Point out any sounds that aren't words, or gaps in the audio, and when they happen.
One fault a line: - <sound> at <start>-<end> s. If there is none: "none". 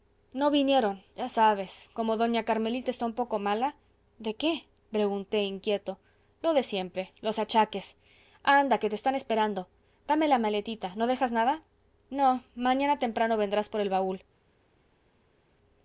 none